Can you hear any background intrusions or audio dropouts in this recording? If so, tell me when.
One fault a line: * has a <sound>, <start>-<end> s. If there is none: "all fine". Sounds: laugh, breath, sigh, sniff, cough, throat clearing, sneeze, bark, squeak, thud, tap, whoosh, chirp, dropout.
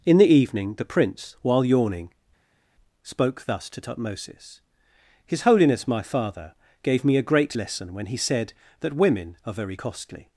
all fine